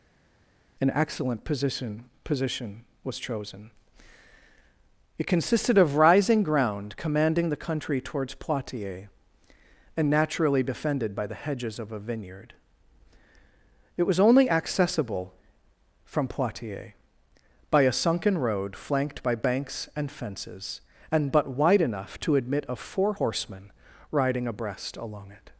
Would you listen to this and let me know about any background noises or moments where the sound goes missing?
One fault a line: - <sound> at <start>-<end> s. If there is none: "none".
none